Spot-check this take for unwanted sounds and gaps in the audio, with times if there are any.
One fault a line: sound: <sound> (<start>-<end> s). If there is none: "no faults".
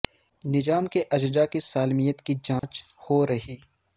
sound: dropout (2.6-2.6 s)